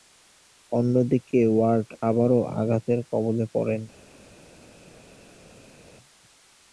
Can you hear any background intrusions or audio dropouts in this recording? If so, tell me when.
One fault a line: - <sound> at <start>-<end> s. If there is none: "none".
none